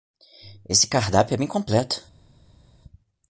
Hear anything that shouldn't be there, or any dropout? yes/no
no